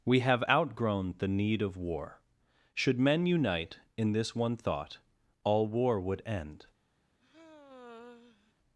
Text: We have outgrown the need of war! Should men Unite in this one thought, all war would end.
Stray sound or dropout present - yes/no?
yes